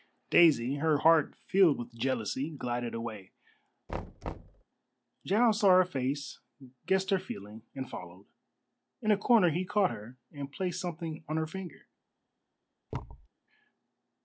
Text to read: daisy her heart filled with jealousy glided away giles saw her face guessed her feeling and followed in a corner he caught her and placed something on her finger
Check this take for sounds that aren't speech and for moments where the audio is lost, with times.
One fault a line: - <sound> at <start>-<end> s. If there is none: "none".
- thud at 3.9-4.6 s
- thud at 12.9-13.3 s